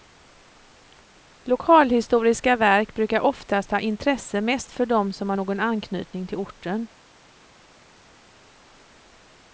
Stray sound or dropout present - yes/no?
no